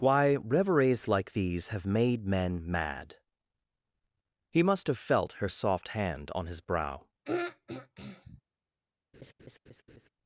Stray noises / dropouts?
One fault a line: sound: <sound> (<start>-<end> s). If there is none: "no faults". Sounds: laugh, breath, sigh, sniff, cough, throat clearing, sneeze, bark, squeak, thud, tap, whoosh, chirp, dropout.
sound: throat clearing (7.2-8.4 s)
sound: laugh (9.1-10.1 s)